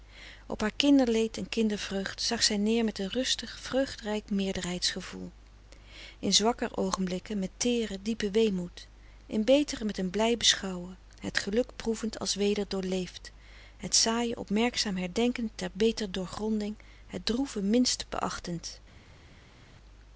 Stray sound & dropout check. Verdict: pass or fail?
pass